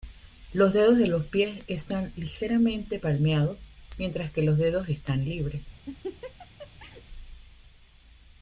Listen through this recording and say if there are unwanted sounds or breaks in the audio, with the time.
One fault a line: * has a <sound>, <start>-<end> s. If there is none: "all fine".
* has a laugh, 5.9-7.0 s